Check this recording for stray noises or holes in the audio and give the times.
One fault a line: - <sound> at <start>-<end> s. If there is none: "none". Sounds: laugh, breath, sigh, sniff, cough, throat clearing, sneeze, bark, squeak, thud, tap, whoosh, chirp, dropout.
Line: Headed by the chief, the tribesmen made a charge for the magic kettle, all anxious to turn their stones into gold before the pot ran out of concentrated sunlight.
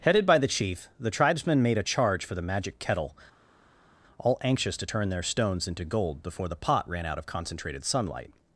none